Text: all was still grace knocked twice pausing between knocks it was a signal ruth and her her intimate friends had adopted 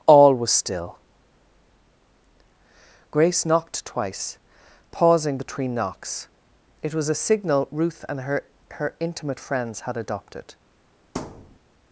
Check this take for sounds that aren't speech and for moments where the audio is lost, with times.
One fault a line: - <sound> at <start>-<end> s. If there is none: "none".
- thud at 11.2-11.6 s